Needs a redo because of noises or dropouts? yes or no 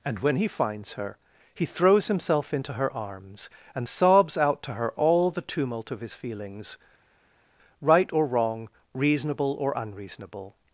no